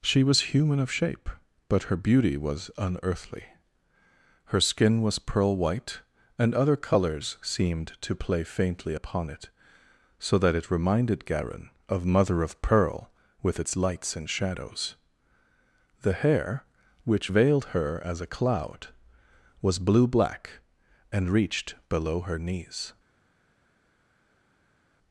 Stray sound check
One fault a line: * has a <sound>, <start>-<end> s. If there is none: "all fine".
all fine